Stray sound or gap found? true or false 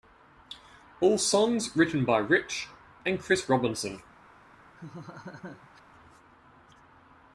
true